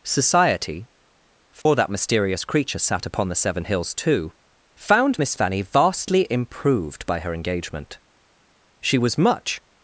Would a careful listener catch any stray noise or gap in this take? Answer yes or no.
yes